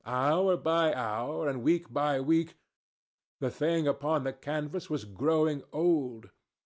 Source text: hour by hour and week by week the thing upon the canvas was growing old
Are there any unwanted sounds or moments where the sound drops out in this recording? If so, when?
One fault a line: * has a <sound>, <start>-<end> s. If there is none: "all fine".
all fine